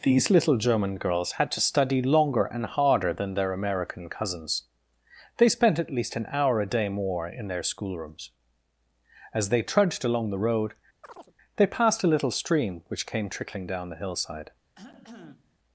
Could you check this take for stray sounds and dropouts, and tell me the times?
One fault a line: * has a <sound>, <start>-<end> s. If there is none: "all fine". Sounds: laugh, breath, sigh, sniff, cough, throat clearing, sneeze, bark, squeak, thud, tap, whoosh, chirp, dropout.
* has a chirp, 11.0-11.3 s
* has a cough, 14.7-15.6 s